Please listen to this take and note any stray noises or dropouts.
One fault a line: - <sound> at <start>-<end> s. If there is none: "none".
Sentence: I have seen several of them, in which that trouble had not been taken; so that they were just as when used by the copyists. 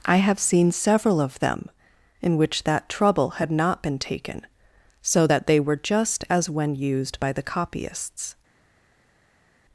none